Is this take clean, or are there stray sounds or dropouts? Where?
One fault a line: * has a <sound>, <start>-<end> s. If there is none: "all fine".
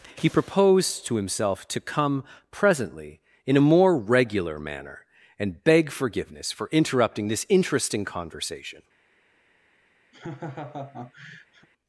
* has a laugh, 10.1-11.7 s